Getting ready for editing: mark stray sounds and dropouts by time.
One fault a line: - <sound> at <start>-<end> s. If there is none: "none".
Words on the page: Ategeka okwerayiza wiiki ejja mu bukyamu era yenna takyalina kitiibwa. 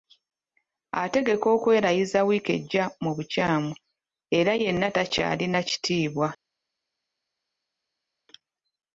none